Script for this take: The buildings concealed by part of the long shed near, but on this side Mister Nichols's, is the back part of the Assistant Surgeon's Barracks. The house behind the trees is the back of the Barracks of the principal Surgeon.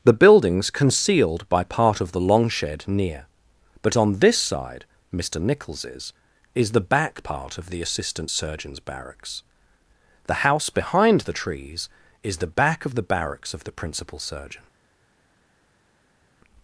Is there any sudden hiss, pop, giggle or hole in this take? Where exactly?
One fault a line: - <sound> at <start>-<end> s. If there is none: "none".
none